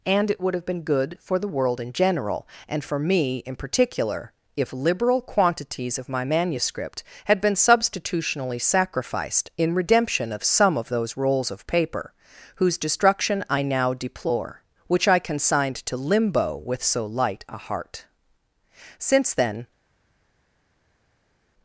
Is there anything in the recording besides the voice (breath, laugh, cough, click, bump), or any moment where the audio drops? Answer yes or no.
no